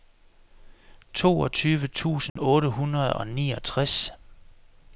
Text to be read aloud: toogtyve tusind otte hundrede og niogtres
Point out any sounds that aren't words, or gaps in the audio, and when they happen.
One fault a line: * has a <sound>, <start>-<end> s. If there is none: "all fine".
* has a dropout, 2.3-2.4 s